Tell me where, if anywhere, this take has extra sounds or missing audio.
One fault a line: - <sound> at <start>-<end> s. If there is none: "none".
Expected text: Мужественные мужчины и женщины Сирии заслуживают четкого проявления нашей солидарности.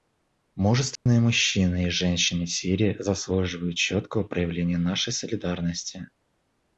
- dropout at 1.0-1.1 s